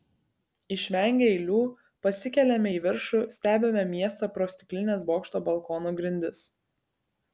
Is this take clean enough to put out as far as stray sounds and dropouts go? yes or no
yes